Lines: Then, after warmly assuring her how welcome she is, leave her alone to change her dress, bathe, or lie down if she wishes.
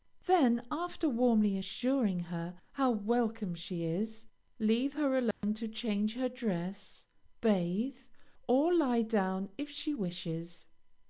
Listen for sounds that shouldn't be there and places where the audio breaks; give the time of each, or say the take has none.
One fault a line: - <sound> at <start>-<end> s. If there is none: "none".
- dropout at 5.3-5.4 s